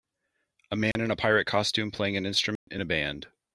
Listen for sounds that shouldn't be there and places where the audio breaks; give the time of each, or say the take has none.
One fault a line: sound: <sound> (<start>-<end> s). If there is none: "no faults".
sound: dropout (0.9-1.0 s)
sound: dropout (2.6-2.7 s)